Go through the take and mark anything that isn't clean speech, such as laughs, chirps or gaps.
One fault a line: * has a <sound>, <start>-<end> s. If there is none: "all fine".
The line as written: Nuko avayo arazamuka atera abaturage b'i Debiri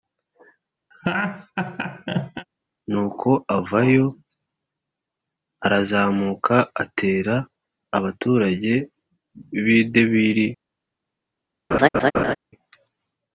* has a laugh, 0.9-2.5 s
* has a laugh, 11.7-12.4 s